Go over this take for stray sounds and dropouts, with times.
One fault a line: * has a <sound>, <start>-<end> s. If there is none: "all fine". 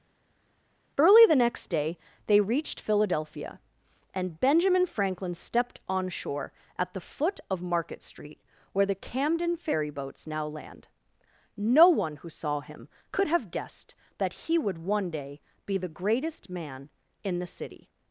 all fine